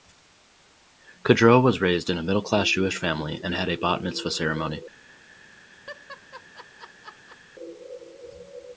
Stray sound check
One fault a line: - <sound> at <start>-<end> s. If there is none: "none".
- laugh at 5.9-7.4 s